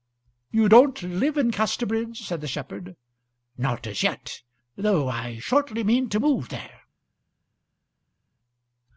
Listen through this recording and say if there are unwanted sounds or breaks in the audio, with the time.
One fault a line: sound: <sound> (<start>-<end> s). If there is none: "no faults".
no faults